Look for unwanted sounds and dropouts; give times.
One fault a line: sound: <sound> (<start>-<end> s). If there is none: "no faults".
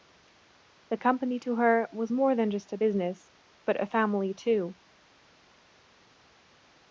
no faults